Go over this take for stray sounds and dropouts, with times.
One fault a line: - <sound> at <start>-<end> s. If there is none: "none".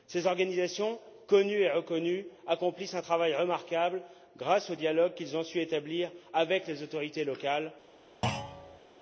- thud at 8.2-8.8 s